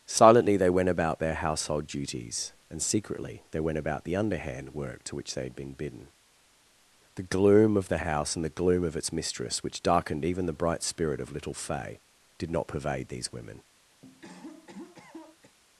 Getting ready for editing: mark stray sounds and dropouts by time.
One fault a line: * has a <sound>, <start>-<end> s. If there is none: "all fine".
* has a cough, 14.0-15.6 s